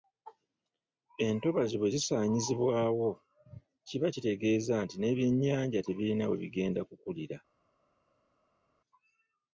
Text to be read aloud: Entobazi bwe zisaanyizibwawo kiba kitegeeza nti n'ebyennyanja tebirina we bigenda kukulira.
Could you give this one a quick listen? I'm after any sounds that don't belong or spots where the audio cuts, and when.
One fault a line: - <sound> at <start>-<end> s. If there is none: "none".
none